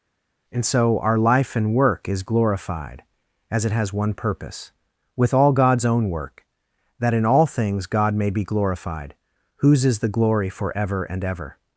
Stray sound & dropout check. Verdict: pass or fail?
pass